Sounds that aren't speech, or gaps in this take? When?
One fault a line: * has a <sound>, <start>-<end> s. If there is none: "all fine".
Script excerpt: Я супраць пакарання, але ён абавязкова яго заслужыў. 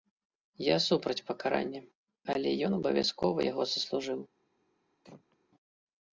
* has a throat clearing, 5.0-5.4 s